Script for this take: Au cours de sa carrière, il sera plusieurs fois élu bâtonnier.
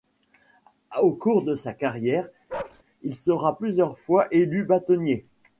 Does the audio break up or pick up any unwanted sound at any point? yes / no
yes